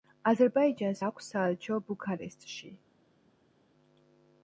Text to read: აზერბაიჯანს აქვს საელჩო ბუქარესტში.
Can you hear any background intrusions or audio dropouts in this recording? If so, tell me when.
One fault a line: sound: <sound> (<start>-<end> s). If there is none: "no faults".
no faults